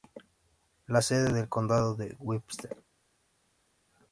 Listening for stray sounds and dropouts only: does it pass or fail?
pass